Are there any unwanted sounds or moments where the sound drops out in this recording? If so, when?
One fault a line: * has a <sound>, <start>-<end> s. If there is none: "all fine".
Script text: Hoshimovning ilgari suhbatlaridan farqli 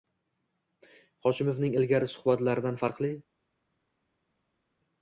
all fine